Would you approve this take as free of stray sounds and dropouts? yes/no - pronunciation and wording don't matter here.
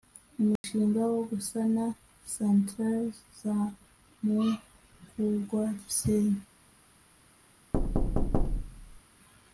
no